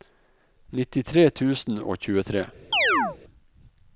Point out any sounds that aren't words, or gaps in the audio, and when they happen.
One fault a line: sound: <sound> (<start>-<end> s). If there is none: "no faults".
sound: chirp (2.7-3.2 s)